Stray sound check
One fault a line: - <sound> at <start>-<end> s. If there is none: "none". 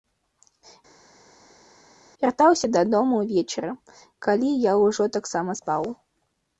none